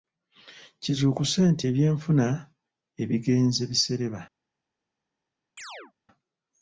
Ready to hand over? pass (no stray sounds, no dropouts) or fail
fail